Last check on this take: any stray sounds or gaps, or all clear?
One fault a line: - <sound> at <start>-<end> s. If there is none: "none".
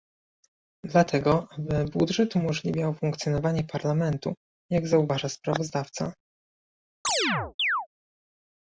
- chirp at 7.0-7.9 s